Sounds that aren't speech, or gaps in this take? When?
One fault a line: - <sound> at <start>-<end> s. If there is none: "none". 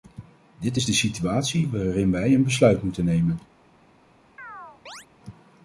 - chirp at 4.4-5.1 s